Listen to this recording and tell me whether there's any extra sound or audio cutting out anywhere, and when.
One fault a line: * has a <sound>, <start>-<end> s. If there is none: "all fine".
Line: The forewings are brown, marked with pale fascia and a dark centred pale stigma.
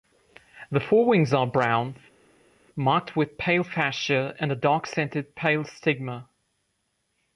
all fine